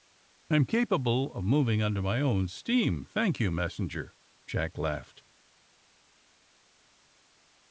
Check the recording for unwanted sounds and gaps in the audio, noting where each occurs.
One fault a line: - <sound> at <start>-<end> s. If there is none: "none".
none